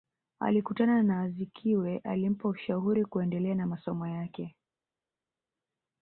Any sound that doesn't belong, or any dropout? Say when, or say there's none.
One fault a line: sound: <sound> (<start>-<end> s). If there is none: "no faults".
no faults